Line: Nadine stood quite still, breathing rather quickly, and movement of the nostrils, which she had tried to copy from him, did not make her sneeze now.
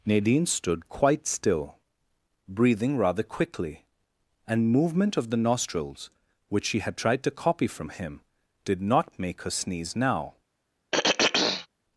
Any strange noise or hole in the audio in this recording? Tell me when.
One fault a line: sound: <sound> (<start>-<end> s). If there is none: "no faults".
sound: throat clearing (10.9-11.7 s)